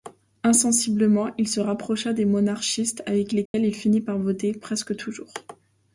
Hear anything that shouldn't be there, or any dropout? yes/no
yes